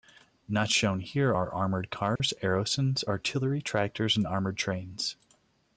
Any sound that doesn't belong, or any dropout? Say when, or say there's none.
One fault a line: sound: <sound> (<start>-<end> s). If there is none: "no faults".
sound: dropout (2.2-2.2 s)